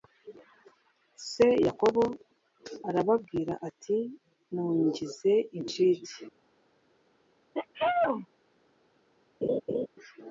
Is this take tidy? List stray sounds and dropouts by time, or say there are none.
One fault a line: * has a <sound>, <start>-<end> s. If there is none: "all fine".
* has a sneeze, 7.5-8.3 s
* has a laugh, 9.4-9.9 s